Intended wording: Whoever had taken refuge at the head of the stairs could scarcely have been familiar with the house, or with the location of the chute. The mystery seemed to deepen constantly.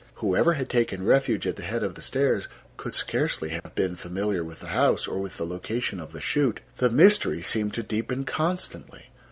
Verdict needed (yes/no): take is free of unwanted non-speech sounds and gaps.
no